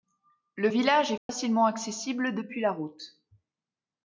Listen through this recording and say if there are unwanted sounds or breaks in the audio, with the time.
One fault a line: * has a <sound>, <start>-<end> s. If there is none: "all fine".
* has a dropout, 1.2-1.3 s